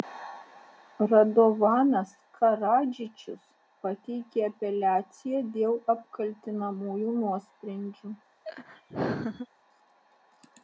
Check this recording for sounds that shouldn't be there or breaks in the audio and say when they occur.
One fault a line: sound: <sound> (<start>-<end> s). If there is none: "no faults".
sound: laugh (8.4-9.5 s)